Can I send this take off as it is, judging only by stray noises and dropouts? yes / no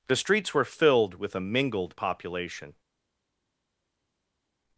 yes